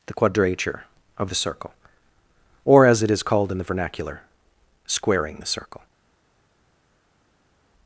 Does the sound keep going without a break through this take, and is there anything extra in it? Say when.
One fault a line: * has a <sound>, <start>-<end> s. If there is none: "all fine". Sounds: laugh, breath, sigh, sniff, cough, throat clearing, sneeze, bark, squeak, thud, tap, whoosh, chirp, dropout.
all fine